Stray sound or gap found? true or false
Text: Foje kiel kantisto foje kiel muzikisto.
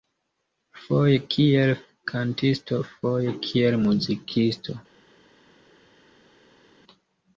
false